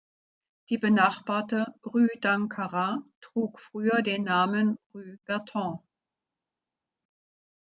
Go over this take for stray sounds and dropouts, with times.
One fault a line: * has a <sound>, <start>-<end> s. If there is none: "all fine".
all fine